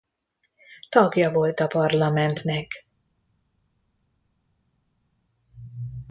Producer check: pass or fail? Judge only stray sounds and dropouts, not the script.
pass